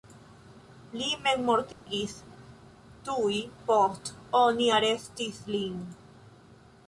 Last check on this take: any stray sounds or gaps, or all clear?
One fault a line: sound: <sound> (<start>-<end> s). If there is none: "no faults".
sound: dropout (1.7-1.9 s)